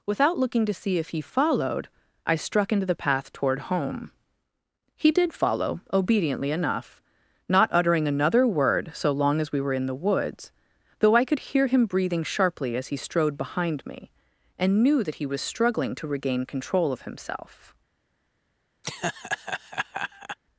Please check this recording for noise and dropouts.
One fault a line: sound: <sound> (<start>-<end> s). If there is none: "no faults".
sound: laugh (18.8-20.4 s)